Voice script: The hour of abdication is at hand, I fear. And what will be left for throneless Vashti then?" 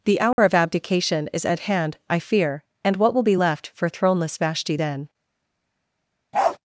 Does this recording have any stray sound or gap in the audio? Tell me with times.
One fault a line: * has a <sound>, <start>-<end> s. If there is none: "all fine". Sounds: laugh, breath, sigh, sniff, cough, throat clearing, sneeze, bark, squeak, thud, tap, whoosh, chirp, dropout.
* has a dropout, 0.3-0.4 s
* has a bark, 6.3-6.6 s